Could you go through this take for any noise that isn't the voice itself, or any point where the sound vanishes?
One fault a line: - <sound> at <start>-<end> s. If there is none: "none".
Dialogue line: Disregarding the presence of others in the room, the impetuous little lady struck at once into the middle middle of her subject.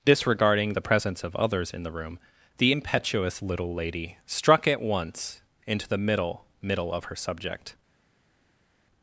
none